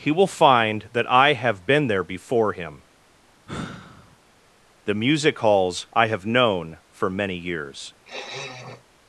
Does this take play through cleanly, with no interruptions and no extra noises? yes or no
no